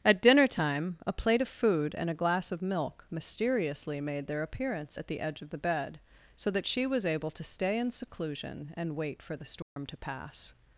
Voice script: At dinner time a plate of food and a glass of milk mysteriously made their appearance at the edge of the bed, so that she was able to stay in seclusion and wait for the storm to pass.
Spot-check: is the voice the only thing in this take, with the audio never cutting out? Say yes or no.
no